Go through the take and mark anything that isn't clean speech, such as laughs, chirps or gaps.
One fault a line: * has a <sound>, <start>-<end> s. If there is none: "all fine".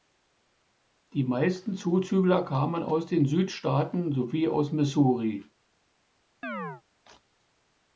* has a chirp, 6.4-6.8 s